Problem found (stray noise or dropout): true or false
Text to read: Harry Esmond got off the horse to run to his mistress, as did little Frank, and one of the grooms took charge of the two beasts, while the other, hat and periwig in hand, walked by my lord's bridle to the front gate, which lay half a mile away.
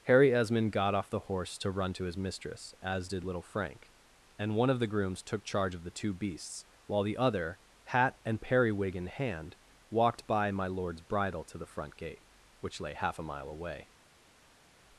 false